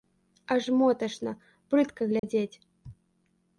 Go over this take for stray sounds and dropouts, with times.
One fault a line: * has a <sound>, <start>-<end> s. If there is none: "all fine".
* has a dropout, 2.2-2.2 s